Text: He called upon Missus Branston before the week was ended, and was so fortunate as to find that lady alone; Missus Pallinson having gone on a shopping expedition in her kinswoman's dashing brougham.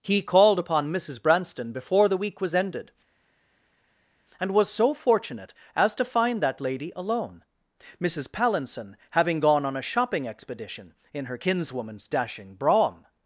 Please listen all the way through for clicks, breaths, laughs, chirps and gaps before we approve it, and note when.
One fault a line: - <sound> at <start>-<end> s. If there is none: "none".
none